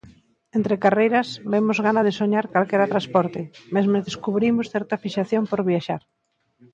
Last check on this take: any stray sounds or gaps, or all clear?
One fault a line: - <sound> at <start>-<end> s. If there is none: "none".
none